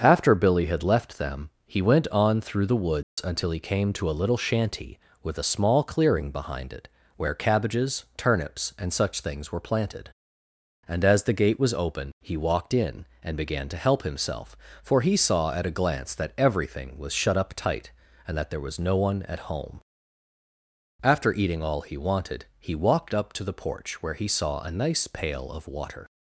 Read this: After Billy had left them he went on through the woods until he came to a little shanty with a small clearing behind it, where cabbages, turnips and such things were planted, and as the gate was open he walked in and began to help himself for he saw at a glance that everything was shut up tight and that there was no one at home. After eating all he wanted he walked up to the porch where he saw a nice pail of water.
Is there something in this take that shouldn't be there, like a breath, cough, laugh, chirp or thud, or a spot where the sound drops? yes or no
yes